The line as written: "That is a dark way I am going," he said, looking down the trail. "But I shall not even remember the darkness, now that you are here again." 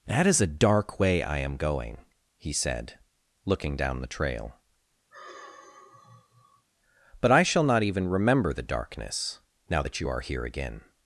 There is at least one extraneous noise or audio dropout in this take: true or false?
true